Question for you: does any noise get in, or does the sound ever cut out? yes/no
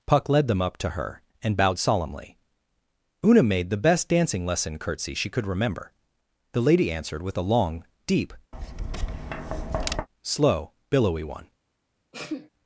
yes